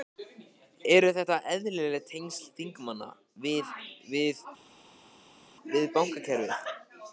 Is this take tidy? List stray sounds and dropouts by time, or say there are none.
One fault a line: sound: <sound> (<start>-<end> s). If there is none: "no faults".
no faults